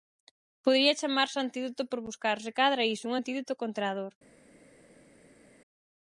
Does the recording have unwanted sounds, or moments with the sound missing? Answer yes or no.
no